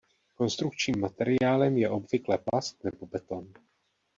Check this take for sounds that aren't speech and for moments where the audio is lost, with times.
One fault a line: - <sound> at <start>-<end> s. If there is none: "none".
none